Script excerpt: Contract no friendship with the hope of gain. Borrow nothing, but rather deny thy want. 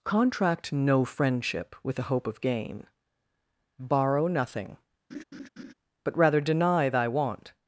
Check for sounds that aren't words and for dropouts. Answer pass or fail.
fail